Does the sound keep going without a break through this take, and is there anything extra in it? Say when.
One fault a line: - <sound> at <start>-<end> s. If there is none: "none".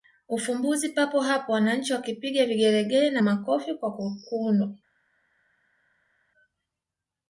none